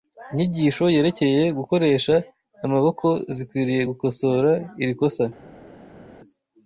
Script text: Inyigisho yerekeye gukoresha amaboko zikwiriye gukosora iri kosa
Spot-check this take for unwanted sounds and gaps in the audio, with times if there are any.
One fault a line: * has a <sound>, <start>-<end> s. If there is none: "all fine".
all fine